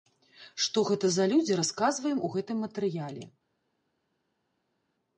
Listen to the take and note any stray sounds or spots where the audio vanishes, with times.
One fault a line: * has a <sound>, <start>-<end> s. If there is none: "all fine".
all fine